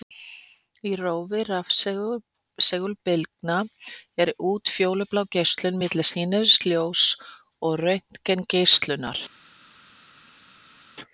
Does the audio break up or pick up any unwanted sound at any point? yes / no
no